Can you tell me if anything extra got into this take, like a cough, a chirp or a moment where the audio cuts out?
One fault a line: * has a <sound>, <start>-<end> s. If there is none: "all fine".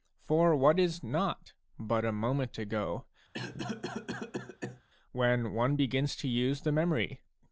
* has a cough, 3.3-4.8 s